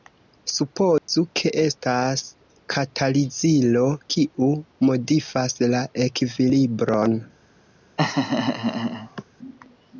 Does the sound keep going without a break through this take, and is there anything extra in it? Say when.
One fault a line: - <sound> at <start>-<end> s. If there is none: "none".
- dropout at 1.0-1.1 s
- laugh at 8.0-9.2 s